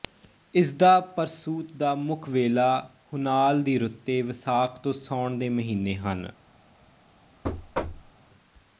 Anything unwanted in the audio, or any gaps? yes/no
yes